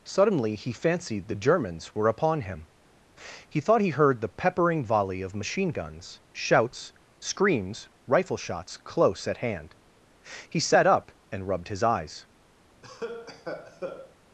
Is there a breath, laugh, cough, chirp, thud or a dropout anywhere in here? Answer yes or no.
yes